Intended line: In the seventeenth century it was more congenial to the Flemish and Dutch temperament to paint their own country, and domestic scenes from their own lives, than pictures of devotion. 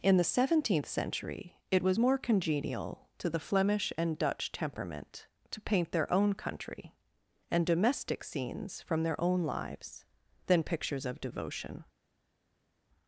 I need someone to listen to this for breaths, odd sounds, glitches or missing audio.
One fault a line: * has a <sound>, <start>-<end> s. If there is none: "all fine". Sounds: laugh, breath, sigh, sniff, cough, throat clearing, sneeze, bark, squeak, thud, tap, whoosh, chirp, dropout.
all fine